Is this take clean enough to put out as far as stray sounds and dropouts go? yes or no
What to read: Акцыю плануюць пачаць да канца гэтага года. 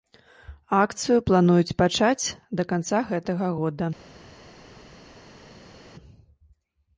yes